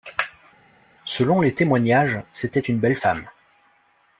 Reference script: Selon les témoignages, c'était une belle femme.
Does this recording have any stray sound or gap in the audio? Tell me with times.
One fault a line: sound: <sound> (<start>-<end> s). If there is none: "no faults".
no faults